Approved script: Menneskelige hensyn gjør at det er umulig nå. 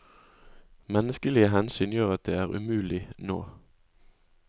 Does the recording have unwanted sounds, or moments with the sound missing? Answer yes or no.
no